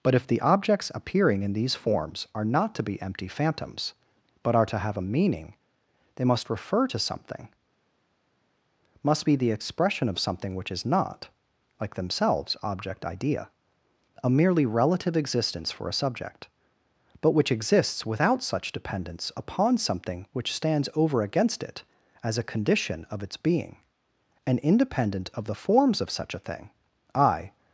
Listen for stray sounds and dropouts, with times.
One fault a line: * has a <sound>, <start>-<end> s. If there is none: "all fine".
all fine